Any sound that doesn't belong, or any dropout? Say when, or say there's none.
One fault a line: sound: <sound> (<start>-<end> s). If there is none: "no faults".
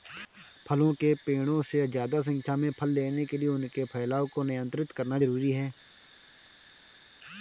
no faults